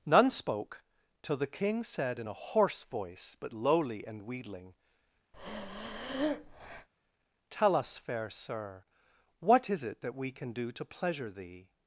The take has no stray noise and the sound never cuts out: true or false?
false